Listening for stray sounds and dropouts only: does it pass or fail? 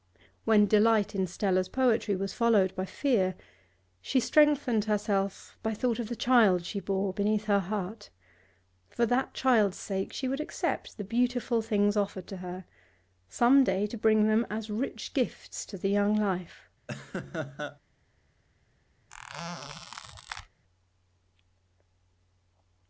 fail